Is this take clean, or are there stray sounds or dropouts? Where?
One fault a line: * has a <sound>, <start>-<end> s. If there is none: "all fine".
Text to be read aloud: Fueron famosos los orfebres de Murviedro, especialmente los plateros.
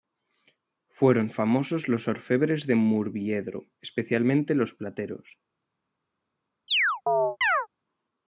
* has a chirp, 6.7-7.7 s